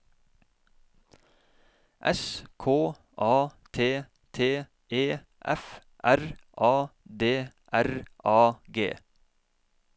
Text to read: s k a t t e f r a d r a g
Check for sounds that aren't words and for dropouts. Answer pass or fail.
pass